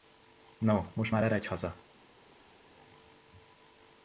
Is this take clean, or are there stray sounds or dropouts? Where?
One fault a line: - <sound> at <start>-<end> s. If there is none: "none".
none